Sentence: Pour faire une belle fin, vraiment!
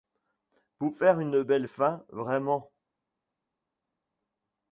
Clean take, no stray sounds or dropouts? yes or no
yes